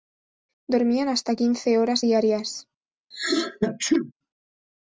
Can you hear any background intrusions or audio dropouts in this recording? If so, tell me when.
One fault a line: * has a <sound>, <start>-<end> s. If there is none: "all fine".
* has a sneeze, 3.1-4.1 s